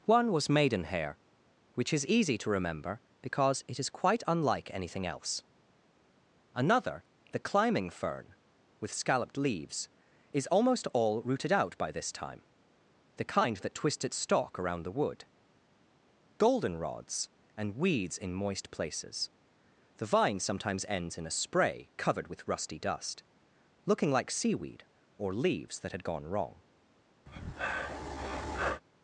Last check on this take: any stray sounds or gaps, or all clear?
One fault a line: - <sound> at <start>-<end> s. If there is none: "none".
- breath at 27.3-28.8 s